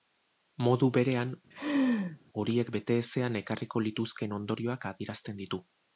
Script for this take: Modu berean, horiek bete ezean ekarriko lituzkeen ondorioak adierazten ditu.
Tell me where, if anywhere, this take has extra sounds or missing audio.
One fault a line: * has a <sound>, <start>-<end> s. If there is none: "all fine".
* has a laugh, 1.5-2.2 s